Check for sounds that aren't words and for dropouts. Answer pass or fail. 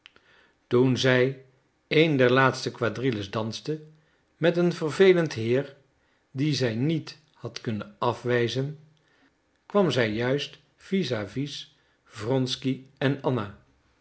pass